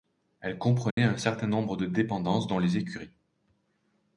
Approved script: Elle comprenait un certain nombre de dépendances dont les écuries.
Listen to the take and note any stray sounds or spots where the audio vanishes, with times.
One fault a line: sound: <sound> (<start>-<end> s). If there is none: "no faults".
sound: dropout (0.9-1.0 s)